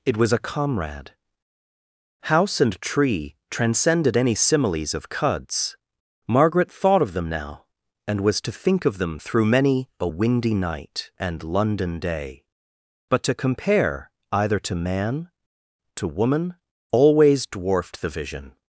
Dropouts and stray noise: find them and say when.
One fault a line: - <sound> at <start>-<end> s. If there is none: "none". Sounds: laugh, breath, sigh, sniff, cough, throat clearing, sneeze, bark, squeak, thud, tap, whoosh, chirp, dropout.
none